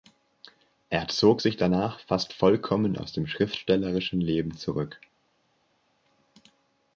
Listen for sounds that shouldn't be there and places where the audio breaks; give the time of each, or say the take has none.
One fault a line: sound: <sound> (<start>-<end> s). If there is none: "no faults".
no faults